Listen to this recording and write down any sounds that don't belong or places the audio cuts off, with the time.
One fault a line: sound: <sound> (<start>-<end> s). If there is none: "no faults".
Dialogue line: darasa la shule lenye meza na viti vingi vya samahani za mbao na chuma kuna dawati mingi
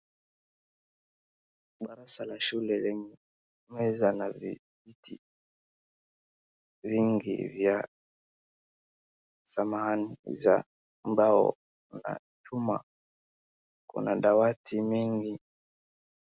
no faults